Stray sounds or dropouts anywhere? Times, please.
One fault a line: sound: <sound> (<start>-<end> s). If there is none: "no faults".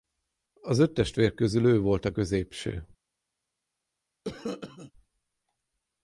sound: cough (4.2-4.9 s)